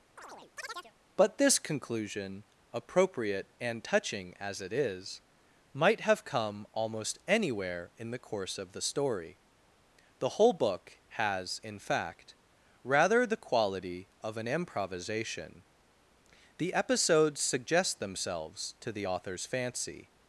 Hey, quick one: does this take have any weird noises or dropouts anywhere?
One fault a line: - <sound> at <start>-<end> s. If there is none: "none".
- chirp at 0.2-0.9 s